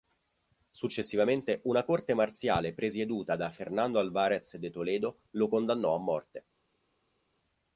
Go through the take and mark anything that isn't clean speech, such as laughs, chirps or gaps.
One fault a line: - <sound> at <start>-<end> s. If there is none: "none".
none